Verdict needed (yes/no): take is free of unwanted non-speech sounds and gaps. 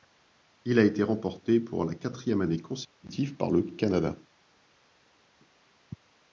yes